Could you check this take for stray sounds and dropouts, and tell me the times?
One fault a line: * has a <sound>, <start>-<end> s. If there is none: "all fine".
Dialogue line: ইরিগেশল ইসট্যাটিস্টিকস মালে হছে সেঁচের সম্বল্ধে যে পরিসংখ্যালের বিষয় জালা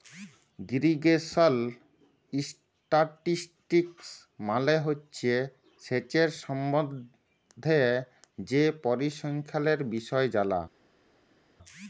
all fine